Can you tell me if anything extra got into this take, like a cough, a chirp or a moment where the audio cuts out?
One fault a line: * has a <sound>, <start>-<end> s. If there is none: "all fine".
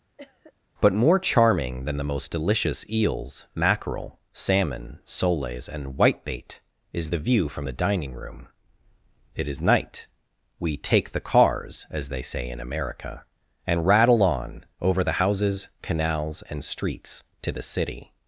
* has a cough, 0.2-0.5 s